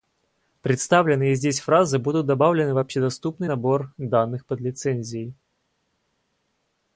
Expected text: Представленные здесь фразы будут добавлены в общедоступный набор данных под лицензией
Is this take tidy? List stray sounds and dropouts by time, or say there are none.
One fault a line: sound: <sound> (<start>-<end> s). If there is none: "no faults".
no faults